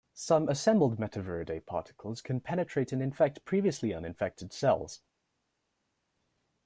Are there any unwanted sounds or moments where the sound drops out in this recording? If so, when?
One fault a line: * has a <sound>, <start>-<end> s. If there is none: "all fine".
all fine